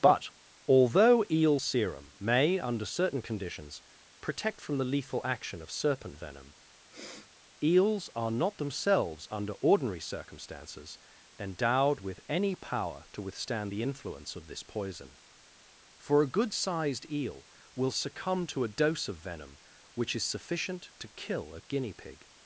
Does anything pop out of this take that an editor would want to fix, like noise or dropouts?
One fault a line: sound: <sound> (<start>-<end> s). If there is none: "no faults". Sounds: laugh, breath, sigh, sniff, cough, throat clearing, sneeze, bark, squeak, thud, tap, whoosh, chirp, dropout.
sound: sniff (6.9-7.3 s)